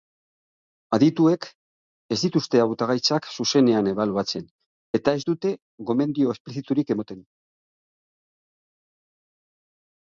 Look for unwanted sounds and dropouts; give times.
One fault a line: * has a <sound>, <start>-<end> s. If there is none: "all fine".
all fine